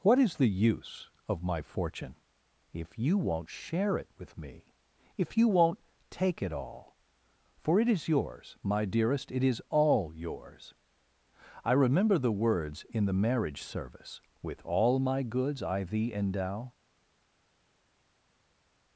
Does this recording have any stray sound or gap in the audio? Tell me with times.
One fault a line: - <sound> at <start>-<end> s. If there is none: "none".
none